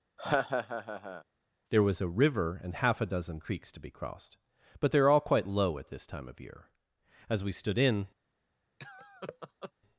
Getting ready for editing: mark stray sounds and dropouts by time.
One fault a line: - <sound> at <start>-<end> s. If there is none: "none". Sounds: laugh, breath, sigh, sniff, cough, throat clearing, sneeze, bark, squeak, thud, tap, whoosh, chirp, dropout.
- laugh at 0.2-1.2 s
- laugh at 8.8-9.7 s